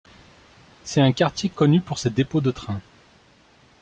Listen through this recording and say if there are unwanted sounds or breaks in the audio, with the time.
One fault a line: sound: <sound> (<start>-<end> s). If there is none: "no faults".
no faults